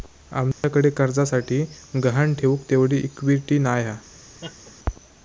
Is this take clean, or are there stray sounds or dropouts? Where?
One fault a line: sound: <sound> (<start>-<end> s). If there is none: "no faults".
sound: dropout (0.5-0.6 s)
sound: laugh (4.4-4.7 s)